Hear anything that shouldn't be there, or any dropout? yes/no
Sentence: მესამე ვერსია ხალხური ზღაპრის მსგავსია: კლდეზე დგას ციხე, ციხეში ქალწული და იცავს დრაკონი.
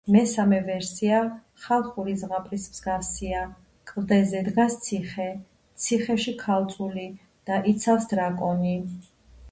no